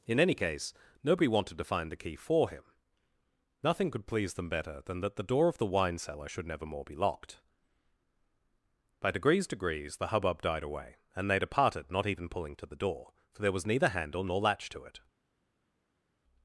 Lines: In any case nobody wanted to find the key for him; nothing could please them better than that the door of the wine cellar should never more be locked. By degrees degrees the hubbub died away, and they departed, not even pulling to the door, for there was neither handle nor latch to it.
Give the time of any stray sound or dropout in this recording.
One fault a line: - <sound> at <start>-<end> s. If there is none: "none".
none